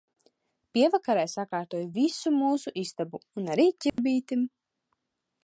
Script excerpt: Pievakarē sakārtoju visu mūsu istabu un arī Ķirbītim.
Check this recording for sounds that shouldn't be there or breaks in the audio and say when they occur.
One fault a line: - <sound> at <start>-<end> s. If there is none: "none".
- dropout at 3.9-4.0 s